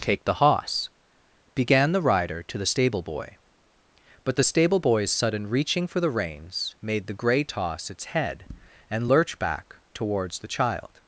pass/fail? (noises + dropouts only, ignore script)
pass